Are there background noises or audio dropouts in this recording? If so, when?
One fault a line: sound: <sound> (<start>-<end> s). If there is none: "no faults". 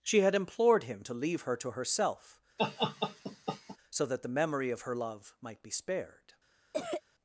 sound: laugh (2.6-3.8 s)
sound: cough (6.7-7.0 s)